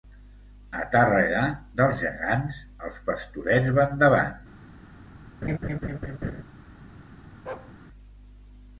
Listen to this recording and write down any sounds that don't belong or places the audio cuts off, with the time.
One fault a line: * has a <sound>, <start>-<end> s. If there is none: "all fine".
* has a laugh, 5.4-6.4 s
* has a bark, 7.5-7.7 s